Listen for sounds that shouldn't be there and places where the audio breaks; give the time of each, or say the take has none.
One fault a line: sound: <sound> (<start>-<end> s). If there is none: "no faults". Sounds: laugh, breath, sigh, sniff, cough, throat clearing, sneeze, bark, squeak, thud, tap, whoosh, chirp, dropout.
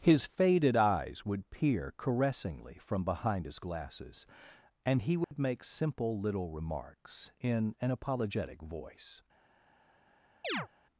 sound: dropout (5.2-5.3 s)
sound: chirp (10.4-10.7 s)